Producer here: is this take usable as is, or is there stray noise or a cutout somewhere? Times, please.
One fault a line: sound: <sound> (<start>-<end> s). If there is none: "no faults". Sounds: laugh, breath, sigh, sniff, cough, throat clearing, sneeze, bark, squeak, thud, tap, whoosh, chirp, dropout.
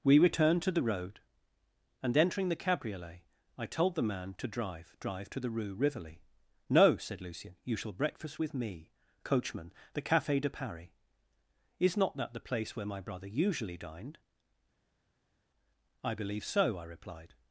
no faults